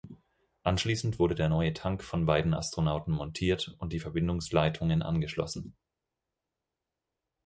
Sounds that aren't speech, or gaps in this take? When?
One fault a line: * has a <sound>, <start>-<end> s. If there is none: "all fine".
all fine